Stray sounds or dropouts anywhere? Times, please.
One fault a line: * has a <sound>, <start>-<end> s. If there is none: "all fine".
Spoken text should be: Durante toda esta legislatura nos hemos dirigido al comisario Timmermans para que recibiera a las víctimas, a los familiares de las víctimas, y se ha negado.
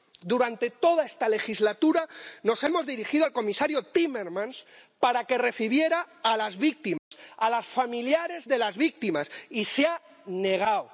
* has a dropout, 7.0-7.1 s